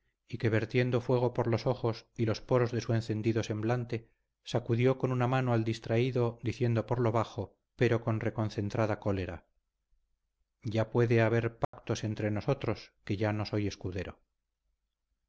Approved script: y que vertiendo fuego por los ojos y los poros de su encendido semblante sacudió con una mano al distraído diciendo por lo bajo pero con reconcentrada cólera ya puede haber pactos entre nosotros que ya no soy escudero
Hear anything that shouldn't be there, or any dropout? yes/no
yes